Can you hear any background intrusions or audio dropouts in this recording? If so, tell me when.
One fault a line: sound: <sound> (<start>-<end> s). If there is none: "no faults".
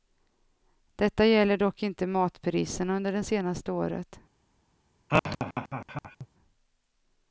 sound: laugh (5.1-6.3 s)